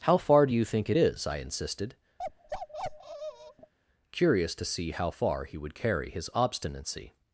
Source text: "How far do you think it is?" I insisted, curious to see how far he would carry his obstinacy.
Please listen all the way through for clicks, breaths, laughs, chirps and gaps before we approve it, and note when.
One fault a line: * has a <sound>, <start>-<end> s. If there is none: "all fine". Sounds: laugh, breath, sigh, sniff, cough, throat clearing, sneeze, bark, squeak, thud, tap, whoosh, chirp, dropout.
* has a bark, 2.2-3.7 s